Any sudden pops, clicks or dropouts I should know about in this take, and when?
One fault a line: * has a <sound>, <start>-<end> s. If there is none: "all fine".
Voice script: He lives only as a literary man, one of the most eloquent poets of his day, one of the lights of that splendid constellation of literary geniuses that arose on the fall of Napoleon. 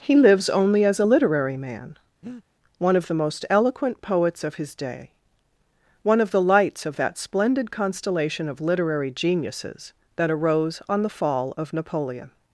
* has a breath, 2.2-2.4 s